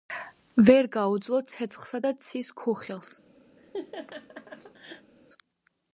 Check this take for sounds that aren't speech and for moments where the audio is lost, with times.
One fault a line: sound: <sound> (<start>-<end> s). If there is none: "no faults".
sound: laugh (3.6-5.1 s)